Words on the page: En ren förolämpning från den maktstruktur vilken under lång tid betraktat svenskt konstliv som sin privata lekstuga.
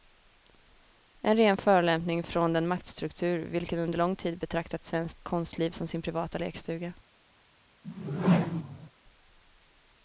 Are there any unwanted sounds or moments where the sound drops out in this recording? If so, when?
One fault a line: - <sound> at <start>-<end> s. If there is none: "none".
- whoosh at 7.8-8.9 s